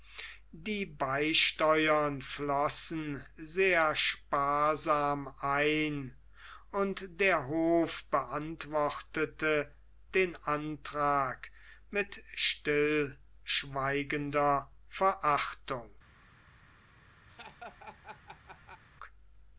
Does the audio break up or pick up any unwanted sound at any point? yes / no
yes